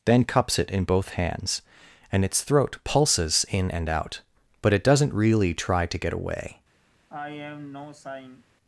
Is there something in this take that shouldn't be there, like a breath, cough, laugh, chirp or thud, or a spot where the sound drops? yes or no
yes